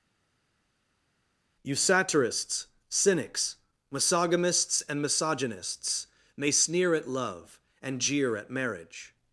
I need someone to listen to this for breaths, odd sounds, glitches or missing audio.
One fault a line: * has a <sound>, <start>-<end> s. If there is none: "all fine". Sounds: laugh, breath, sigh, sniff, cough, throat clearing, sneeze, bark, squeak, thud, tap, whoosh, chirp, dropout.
all fine